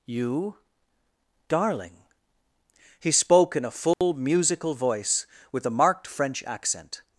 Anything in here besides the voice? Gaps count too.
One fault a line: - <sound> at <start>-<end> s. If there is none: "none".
- dropout at 3.9-4.0 s